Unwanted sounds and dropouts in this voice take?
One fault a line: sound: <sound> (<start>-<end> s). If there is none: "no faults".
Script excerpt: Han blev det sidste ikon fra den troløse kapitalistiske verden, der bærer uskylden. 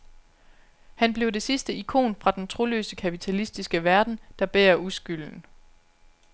no faults